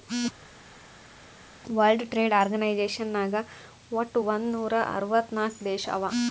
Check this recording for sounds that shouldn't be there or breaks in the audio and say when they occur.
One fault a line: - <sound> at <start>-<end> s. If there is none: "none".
none